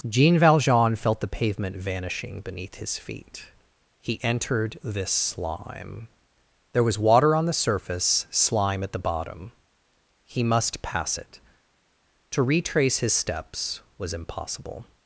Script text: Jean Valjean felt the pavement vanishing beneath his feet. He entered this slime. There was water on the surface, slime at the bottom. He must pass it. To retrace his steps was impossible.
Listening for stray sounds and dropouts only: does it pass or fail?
pass